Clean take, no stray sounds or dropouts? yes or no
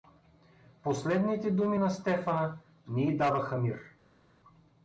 yes